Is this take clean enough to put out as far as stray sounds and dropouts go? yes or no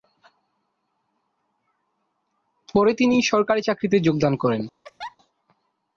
no